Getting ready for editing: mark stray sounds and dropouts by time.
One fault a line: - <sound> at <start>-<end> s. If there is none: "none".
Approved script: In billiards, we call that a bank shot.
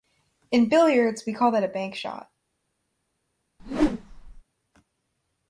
- whoosh at 3.6-4.4 s